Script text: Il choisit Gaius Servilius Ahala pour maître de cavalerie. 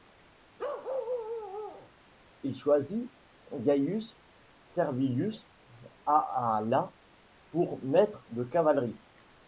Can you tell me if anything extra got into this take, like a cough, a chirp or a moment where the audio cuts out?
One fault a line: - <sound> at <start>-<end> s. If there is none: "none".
- bark at 0.6-1.9 s